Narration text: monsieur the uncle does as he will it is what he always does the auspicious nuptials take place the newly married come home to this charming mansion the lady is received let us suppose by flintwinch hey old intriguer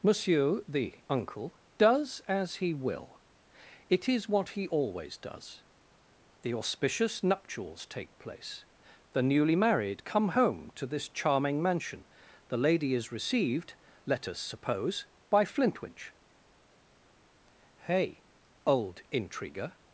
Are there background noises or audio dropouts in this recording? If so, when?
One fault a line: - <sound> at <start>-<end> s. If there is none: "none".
none